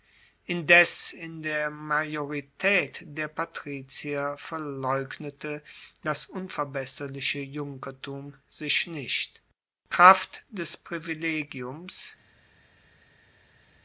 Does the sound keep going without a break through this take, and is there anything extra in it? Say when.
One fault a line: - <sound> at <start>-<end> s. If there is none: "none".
none